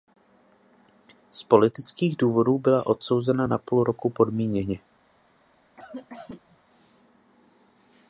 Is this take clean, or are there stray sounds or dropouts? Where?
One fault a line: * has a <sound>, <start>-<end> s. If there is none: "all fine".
* has a cough, 5.8-6.6 s